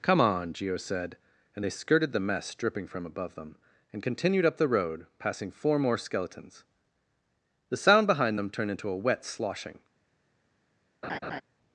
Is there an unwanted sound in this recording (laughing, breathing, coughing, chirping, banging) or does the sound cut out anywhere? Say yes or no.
yes